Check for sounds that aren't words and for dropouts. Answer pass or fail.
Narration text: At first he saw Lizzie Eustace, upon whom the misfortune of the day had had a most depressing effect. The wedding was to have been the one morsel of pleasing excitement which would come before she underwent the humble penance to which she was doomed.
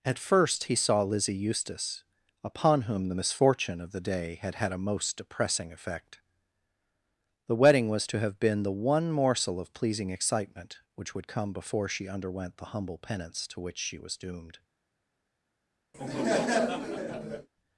fail